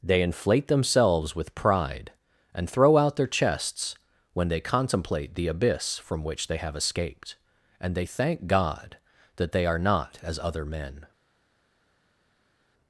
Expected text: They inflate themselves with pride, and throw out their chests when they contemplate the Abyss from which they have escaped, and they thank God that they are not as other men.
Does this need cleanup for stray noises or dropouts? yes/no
no